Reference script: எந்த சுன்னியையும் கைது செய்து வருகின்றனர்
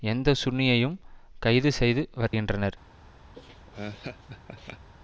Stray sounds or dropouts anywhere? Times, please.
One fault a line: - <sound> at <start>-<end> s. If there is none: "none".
- dropout at 2.3-2.3 s
- laugh at 3.3-4.9 s